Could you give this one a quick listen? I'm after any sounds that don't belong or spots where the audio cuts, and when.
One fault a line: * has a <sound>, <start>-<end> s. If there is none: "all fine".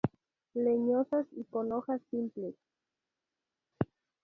all fine